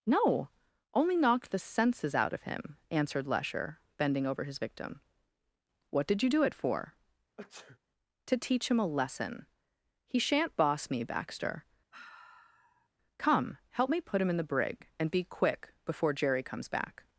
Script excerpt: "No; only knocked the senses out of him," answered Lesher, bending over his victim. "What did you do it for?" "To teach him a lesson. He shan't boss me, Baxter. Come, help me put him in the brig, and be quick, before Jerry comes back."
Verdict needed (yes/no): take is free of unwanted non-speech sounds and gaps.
no